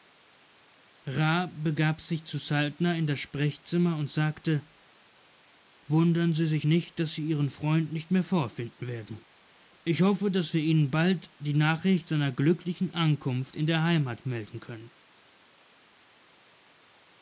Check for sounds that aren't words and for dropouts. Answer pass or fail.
pass